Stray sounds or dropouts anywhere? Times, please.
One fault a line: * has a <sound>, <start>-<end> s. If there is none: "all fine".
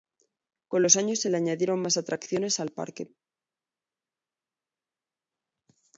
all fine